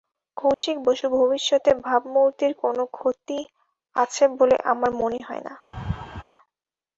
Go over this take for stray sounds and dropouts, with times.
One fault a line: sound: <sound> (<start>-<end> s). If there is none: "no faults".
sound: dropout (0.5-0.6 s)
sound: laugh (5.7-6.2 s)